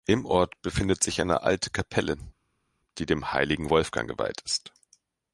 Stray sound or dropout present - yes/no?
no